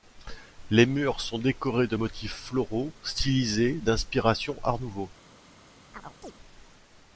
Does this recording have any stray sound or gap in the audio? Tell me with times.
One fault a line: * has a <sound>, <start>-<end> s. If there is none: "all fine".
* has a chirp, 5.9-6.3 s